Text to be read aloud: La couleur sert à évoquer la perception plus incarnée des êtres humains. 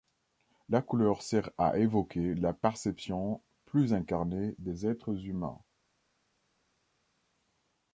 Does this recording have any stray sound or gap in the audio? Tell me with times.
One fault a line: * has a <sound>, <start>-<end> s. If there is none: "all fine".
all fine